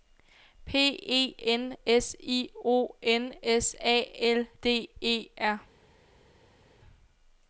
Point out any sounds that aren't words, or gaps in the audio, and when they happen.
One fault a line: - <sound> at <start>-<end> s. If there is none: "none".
none